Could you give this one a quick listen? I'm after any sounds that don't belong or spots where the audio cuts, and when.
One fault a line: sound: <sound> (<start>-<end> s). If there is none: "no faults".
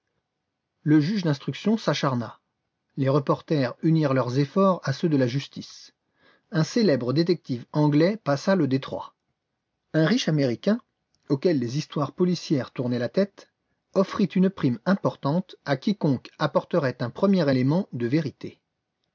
no faults